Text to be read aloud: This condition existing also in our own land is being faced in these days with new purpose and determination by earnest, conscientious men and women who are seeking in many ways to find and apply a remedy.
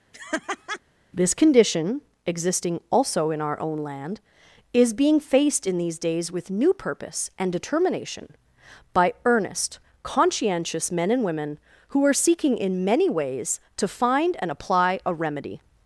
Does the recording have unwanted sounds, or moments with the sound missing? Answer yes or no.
yes